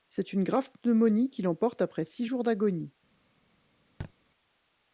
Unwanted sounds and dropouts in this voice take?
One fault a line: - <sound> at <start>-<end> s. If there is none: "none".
- thud at 4.0-4.1 s